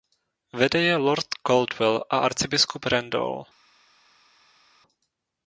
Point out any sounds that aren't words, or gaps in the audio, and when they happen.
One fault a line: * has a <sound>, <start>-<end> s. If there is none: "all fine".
all fine